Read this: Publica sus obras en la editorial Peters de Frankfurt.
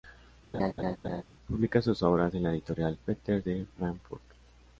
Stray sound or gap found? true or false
true